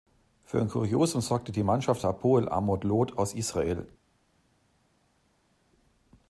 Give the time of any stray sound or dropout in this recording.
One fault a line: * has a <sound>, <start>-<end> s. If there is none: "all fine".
all fine